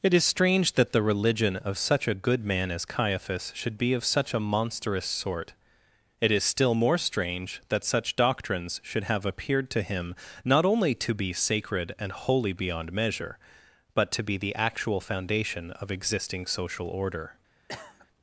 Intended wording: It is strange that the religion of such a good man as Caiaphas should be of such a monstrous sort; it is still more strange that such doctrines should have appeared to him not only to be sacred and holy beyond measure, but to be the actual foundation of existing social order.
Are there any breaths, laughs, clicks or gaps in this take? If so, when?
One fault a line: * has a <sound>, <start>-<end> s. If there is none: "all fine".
* has a cough, 17.7-18.1 s